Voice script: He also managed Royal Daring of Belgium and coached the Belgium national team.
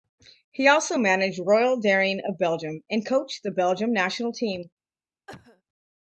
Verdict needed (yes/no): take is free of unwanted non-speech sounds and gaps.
no